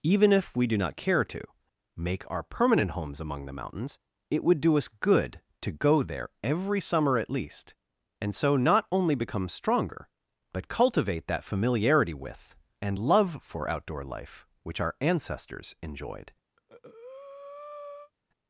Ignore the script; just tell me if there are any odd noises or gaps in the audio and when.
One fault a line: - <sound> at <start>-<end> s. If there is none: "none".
- breath at 16.6-18.1 s